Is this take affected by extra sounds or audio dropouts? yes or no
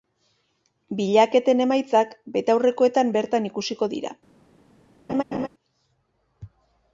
yes